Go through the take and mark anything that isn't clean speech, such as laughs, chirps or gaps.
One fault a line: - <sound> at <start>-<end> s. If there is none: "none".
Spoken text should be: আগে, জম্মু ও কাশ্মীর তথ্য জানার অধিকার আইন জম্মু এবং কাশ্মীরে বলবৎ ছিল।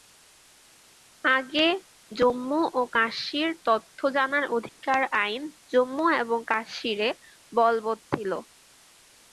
- dropout at 4.7-4.8 s